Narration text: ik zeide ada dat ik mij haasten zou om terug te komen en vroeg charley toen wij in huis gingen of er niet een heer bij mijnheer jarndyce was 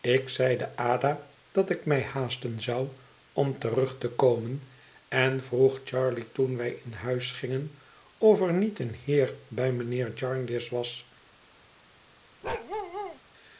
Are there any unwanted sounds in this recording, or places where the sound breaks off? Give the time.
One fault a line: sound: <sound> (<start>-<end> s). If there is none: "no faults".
sound: bark (12.4-13.2 s)